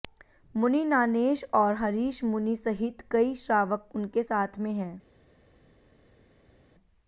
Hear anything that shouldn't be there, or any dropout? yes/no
no